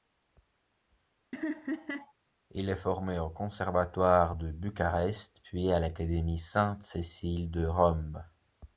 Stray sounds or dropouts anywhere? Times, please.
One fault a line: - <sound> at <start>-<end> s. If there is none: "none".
- laugh at 1.3-2.1 s